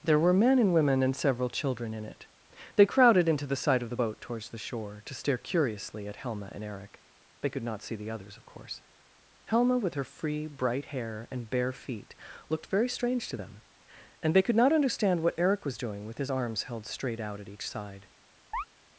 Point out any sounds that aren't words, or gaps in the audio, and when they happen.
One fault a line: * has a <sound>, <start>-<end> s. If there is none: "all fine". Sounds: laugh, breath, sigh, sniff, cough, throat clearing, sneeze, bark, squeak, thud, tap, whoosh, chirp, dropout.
* has a chirp, 18.5-18.6 s